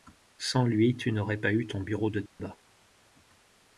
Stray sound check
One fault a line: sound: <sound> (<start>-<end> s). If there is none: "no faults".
sound: dropout (2.3-2.4 s)